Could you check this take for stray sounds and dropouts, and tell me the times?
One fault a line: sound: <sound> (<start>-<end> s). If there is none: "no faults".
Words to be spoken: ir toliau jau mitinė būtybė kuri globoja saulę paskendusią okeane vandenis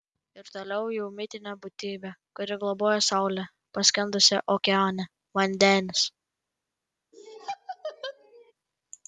sound: laugh (7.1-8.5 s)